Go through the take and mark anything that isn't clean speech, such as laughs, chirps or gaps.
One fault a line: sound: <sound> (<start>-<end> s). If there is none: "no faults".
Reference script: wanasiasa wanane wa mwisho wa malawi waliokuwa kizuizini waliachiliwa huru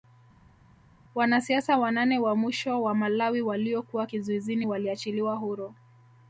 no faults